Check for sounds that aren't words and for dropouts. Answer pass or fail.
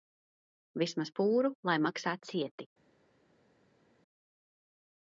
pass